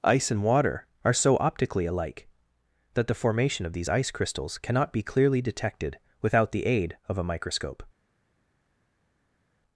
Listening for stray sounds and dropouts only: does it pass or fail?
pass